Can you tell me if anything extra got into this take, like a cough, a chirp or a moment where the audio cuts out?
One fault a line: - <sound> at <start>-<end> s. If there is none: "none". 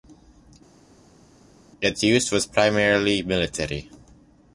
none